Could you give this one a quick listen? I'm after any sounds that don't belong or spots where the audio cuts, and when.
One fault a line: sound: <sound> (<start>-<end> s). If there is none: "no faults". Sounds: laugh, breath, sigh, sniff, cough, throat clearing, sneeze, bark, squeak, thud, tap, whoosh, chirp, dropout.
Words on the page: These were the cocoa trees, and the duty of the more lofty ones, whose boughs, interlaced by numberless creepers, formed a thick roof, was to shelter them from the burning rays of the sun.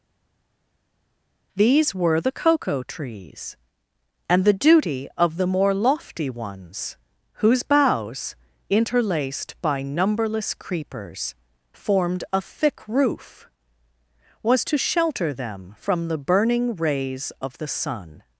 no faults